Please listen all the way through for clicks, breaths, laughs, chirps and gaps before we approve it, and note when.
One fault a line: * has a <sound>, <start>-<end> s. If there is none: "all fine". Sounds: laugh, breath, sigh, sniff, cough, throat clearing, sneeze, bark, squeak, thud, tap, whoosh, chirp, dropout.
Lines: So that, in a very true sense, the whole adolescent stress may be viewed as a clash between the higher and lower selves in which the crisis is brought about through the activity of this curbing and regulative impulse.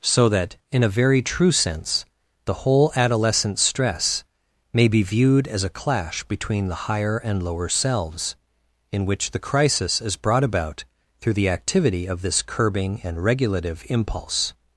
all fine